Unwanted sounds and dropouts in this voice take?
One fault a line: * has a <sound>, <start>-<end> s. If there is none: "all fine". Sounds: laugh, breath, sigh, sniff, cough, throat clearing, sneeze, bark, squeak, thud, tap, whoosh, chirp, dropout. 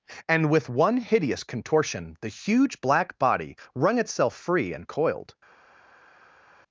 all fine